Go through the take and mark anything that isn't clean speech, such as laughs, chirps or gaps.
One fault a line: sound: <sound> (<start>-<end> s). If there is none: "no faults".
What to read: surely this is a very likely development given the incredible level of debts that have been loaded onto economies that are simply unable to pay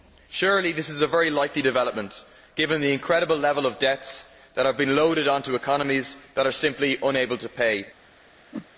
sound: whoosh (8.5-8.7 s)